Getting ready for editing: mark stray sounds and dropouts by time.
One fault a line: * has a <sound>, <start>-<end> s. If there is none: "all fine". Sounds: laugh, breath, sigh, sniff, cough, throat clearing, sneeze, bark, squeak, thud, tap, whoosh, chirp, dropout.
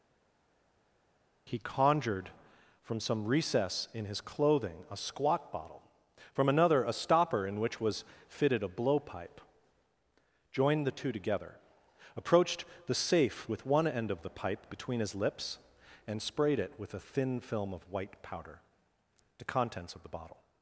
all fine